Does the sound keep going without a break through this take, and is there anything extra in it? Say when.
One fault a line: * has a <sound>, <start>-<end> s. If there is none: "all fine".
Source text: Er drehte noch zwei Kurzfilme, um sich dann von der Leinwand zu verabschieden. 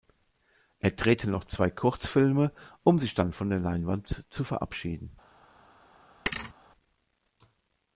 * has a thud, 6.3-6.5 s